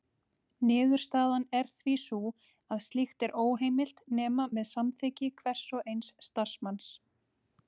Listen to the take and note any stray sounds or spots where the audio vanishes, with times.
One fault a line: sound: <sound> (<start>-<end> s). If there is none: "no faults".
no faults